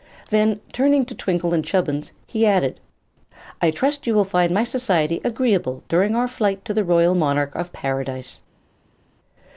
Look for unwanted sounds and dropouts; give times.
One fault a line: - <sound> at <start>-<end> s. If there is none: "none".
none